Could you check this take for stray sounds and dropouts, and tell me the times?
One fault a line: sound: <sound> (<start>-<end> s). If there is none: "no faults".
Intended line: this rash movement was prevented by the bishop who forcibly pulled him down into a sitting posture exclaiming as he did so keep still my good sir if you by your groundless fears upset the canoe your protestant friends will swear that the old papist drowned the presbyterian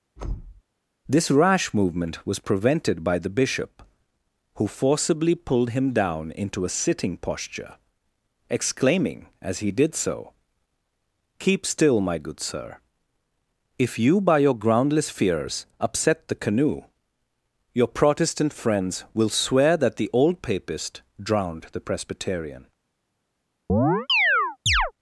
sound: thud (0.2-0.6 s)
sound: chirp (23.7-24.9 s)